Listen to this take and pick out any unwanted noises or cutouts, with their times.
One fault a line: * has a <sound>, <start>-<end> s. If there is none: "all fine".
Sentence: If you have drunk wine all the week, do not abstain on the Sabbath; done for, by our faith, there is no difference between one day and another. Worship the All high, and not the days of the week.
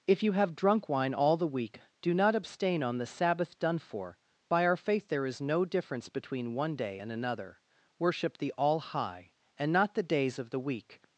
all fine